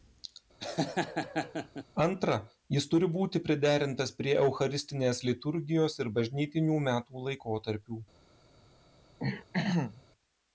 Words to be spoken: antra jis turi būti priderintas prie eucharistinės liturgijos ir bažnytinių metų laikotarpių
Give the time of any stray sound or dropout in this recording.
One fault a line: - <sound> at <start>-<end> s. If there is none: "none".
- laugh at 0.6-1.8 s
- throat clearing at 9.2-10.0 s